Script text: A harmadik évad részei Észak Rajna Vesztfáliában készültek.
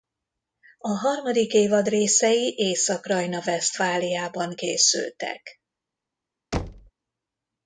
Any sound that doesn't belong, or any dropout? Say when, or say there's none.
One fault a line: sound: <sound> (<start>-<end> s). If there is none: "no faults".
sound: thud (6.5-6.9 s)